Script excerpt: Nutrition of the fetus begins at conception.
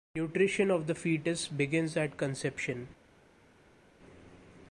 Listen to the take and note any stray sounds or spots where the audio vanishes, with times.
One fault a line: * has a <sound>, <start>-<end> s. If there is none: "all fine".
all fine